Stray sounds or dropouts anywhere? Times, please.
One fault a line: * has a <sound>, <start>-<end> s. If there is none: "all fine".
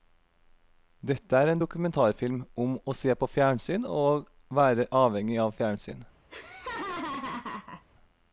* has a laugh, 6.3-7.8 s